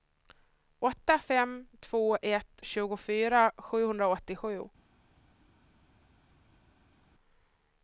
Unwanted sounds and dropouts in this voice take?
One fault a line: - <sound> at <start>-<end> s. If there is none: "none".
none